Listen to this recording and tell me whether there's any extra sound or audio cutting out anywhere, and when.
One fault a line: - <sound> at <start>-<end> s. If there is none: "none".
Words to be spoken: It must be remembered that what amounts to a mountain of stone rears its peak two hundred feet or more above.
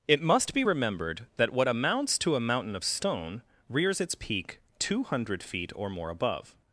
none